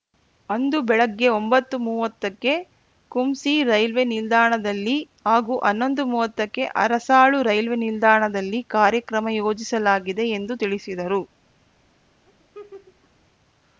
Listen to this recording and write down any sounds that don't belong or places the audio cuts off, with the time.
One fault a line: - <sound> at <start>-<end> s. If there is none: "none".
- laugh at 12.3-13.1 s